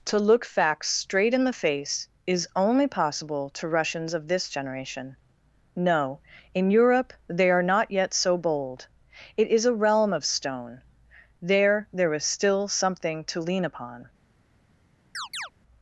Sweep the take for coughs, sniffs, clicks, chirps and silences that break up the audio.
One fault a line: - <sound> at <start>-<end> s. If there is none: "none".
- chirp at 15.1-15.5 s